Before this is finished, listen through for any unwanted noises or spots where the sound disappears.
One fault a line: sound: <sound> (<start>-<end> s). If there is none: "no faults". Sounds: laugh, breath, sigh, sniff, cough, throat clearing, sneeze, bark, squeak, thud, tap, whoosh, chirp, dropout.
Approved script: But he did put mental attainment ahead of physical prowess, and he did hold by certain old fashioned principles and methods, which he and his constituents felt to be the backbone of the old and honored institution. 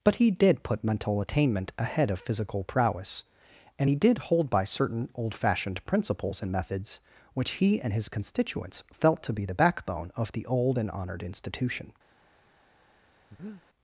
sound: breath (13.3-13.6 s)